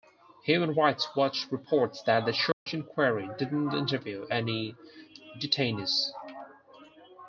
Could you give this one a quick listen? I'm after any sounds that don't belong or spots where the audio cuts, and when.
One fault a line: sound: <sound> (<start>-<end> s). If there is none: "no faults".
sound: dropout (2.5-2.7 s)